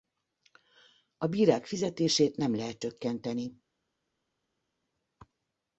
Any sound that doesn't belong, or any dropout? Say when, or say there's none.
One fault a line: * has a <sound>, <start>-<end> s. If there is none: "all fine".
all fine